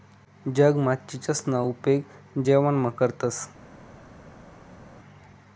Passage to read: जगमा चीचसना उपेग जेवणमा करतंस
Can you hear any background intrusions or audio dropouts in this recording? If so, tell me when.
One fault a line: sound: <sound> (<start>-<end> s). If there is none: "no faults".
no faults